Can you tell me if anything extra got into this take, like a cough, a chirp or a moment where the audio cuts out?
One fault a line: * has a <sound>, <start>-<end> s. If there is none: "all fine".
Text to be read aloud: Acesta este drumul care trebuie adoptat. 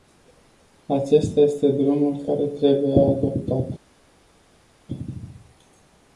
all fine